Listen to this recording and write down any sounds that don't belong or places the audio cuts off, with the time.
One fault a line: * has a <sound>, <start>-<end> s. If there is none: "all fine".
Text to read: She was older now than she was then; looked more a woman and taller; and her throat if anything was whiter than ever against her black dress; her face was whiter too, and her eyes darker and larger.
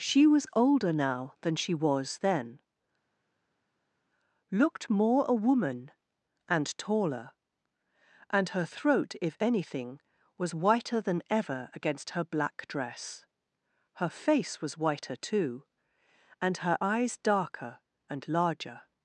all fine